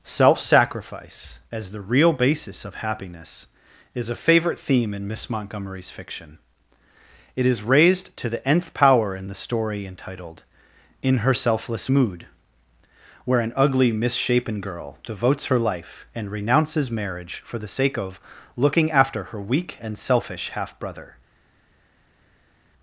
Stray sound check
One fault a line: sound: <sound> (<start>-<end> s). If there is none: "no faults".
no faults